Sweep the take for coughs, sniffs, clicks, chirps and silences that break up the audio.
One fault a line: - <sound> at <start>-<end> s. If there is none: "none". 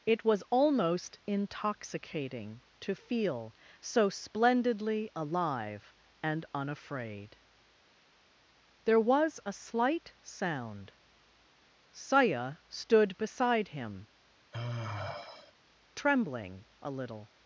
- sigh at 14.5-15.5 s